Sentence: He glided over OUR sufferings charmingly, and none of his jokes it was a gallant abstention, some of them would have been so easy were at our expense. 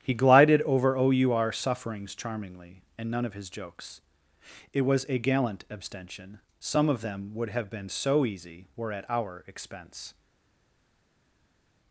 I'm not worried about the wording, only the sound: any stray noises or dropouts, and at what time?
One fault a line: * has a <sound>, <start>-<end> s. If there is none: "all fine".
all fine